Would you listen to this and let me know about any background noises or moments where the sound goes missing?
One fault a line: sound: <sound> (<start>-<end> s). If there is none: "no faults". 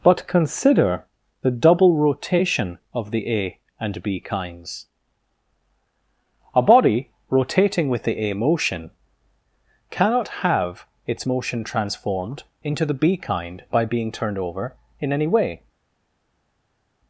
no faults